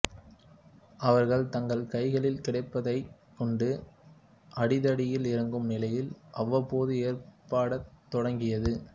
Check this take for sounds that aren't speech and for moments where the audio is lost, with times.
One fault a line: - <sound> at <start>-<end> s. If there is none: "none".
none